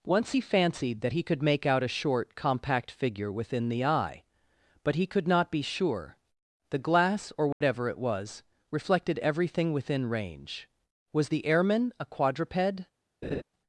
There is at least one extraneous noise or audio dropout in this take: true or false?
true